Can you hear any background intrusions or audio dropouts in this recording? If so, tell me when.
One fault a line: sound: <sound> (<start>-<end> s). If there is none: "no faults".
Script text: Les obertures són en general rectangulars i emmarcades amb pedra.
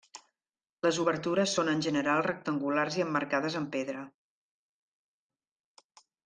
no faults